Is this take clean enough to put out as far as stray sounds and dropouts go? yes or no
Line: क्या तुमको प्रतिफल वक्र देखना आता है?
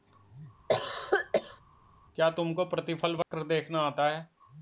no